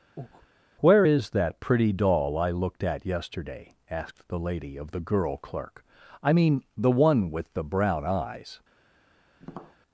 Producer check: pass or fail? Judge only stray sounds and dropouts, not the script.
fail